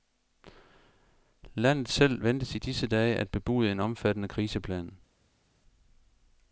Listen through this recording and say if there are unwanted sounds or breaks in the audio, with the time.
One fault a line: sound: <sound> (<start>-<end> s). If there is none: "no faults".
no faults